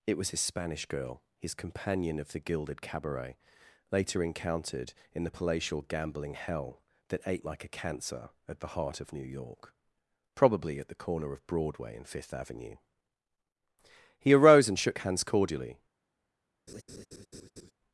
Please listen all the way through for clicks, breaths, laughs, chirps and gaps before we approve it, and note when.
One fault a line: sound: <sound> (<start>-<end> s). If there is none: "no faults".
sound: laugh (16.7-17.7 s)